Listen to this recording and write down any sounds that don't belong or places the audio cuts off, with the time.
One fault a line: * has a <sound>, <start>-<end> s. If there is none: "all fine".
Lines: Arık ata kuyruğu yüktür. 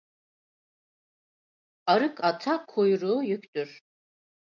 all fine